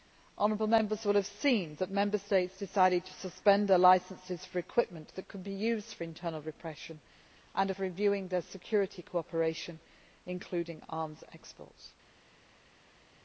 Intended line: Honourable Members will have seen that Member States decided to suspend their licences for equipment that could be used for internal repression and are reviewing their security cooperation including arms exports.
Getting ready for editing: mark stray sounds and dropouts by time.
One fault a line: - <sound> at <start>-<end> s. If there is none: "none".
none